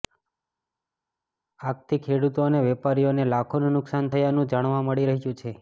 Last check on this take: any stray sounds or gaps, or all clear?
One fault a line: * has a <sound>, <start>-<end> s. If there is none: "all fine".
all fine